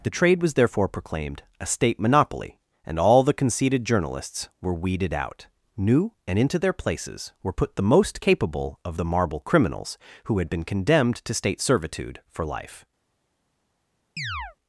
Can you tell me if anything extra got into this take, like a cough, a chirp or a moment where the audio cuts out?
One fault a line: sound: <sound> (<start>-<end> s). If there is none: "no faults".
sound: chirp (14.2-14.6 s)